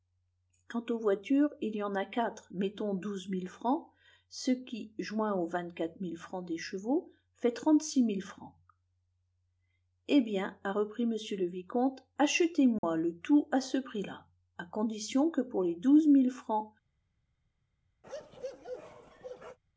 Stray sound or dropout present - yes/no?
yes